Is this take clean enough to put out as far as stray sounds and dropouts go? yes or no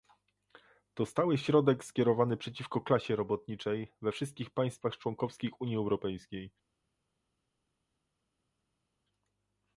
yes